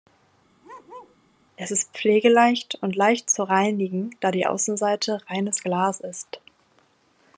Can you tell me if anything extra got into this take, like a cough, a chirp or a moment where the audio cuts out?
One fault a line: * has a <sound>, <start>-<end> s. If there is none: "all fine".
* has a bark, 0.6-1.2 s